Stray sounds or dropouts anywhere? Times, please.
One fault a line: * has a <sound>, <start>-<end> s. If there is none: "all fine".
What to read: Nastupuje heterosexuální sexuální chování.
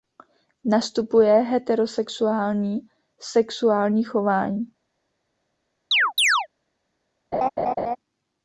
* has a chirp, 5.9-6.5 s
* has a laugh, 7.3-8.0 s